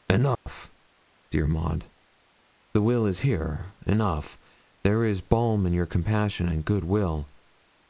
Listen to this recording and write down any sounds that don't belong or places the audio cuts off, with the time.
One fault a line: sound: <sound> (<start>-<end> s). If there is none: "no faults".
sound: dropout (0.4-0.5 s)